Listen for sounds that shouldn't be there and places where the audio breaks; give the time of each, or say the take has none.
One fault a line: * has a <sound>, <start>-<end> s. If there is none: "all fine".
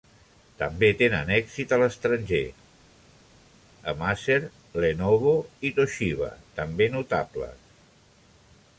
all fine